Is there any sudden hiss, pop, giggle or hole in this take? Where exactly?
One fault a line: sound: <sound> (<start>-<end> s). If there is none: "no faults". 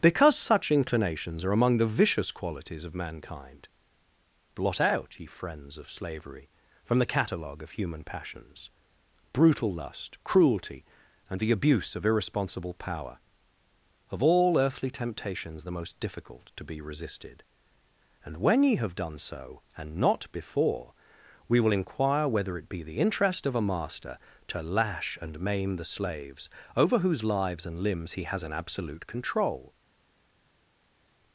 no faults